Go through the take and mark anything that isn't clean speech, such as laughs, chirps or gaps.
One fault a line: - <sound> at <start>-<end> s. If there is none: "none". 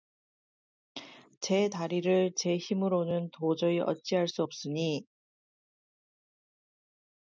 none